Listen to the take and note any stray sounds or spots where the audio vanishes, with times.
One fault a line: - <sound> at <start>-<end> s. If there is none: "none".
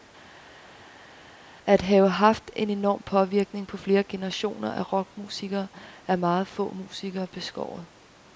none